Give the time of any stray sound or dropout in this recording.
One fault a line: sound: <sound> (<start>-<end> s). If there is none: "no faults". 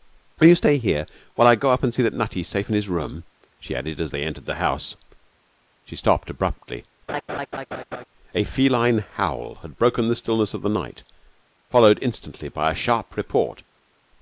sound: laugh (7.1-8.0 s)